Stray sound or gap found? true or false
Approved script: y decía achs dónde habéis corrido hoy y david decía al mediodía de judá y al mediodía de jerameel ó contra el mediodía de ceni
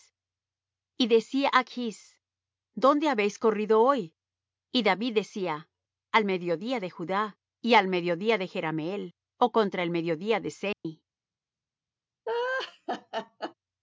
true